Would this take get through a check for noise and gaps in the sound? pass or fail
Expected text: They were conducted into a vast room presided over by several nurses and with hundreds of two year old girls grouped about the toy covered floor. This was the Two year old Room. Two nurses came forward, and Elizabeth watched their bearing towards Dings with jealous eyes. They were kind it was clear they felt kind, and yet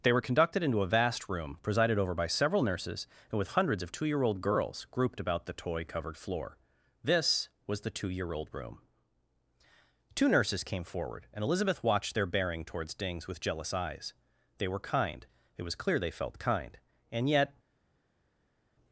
pass